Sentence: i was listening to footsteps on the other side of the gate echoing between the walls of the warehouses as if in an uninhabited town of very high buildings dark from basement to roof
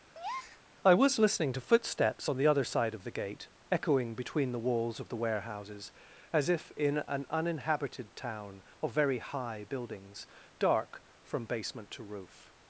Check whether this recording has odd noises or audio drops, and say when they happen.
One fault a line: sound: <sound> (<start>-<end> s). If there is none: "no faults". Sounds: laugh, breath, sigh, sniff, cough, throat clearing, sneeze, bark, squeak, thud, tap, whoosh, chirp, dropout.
sound: breath (0.1-0.6 s)